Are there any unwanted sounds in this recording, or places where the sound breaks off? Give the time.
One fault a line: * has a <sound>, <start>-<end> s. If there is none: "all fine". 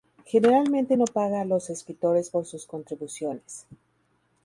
all fine